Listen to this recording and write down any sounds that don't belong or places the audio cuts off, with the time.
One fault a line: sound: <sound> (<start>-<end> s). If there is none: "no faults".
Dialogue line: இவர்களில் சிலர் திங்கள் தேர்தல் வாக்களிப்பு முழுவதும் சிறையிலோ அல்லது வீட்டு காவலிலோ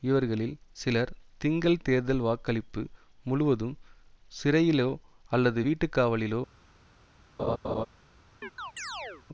sound: laugh (7.4-7.9 s)
sound: chirp (8.4-9.2 s)